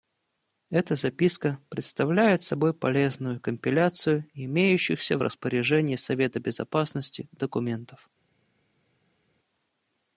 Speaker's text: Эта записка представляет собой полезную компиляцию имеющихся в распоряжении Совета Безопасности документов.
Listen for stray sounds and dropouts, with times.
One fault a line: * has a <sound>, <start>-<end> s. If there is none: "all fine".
all fine